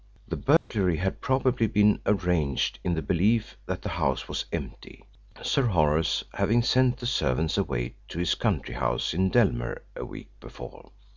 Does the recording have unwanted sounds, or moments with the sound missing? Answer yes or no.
yes